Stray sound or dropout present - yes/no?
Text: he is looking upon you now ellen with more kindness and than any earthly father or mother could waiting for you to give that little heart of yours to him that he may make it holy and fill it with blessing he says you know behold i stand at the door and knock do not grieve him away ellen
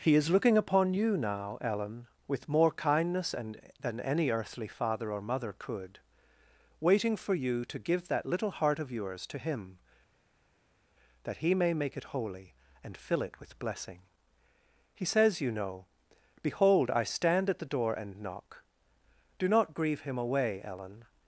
no